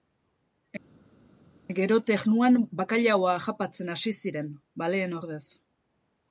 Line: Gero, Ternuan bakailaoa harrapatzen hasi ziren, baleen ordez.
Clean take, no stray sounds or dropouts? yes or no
yes